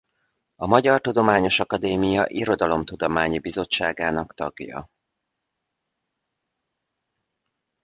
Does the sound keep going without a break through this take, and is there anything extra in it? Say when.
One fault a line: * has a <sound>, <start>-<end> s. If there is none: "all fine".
all fine